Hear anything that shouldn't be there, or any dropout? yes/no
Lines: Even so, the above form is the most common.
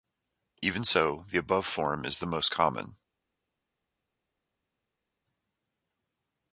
no